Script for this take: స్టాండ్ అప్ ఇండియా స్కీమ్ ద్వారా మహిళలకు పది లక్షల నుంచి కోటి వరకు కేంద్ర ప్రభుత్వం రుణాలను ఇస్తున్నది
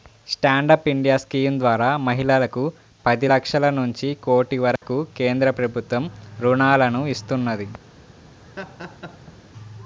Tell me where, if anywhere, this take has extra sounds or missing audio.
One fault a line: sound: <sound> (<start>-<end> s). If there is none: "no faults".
sound: dropout (4.8-4.8 s)
sound: laugh (8.4-9.4 s)